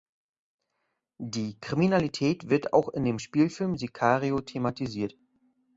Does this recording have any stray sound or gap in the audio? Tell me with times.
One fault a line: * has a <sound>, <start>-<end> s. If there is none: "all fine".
all fine